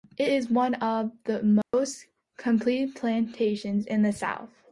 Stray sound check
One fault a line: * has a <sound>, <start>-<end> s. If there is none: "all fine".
* has a dropout, 1.6-1.7 s